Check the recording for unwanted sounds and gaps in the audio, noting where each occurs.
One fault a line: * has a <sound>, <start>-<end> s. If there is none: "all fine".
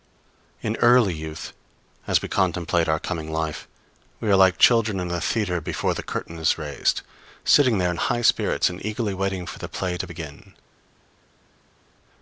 all fine